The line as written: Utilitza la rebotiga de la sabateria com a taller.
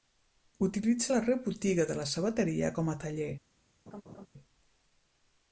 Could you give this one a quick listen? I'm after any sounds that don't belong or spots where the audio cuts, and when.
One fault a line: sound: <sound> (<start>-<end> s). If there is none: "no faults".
sound: laugh (3.9-4.3 s)